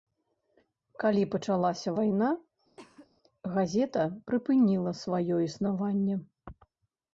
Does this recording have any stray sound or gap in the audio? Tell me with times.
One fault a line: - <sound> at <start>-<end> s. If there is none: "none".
- cough at 2.8-3.1 s